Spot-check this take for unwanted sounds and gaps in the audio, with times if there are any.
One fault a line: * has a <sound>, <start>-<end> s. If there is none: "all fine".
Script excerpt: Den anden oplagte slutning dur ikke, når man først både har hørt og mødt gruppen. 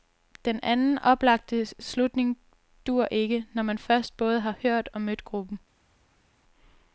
all fine